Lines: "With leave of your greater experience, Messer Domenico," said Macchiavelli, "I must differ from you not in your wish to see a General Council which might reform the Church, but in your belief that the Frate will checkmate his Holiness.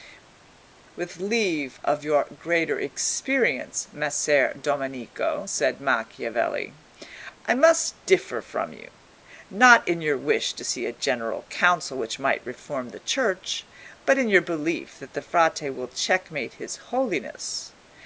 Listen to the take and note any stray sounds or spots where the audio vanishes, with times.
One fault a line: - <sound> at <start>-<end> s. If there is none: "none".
none